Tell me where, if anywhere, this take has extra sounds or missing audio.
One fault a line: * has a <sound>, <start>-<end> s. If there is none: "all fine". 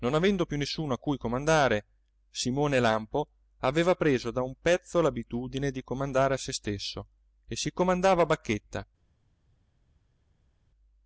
all fine